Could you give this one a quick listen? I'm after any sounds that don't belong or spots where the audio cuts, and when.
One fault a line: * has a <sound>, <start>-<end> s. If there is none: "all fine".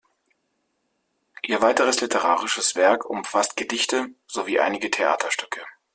all fine